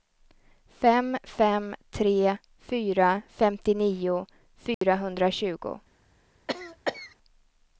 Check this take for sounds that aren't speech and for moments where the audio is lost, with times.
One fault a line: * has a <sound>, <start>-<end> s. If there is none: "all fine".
* has a dropout, 4.7-4.8 s
* has a cough, 6.5-7.2 s